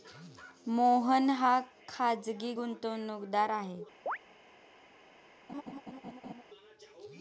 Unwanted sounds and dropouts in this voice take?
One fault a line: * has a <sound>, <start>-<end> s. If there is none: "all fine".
* has a chirp, 4.1-4.2 s
* has a laugh, 5.5-6.4 s